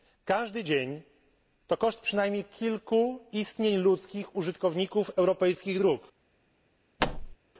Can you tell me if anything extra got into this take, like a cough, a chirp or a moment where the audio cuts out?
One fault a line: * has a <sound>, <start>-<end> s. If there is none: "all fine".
* has a thud, 7.0-7.4 s